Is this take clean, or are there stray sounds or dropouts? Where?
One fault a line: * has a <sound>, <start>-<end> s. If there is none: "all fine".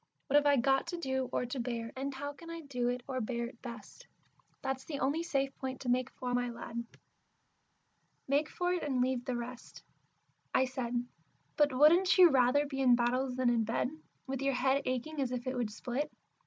all fine